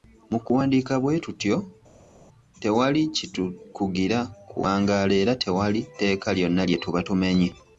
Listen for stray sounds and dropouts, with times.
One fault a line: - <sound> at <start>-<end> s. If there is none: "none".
none